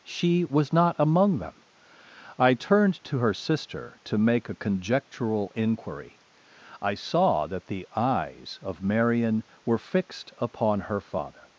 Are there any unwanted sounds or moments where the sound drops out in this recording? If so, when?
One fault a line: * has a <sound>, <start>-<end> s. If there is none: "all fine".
all fine